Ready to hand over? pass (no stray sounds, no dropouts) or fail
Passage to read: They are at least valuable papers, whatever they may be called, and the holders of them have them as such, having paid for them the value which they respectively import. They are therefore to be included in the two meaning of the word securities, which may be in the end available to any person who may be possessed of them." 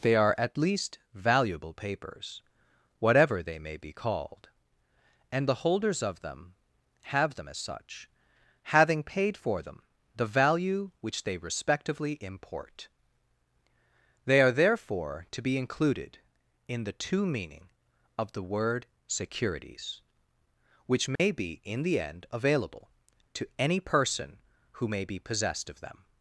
fail